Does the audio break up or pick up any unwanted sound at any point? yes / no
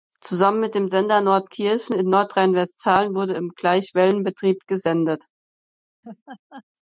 yes